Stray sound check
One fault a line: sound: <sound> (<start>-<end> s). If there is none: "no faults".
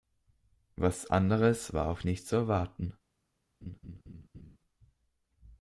sound: laugh (3.6-4.6 s)